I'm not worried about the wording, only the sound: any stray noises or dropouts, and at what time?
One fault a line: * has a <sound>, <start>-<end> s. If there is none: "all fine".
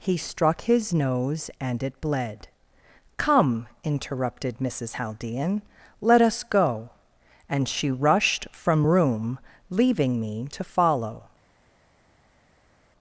all fine